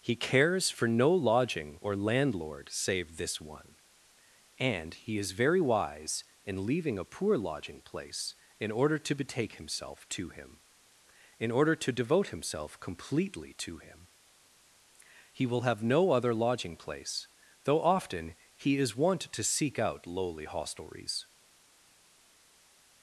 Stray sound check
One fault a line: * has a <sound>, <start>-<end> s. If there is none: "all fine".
all fine